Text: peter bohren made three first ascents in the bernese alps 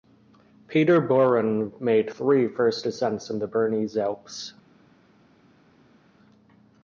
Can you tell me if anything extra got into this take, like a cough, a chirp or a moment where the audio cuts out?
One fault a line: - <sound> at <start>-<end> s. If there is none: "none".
none